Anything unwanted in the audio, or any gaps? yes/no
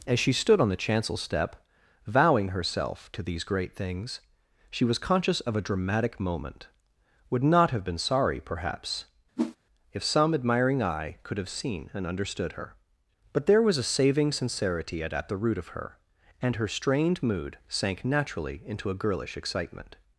yes